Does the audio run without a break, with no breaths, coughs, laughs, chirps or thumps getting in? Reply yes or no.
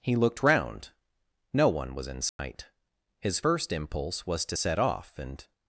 no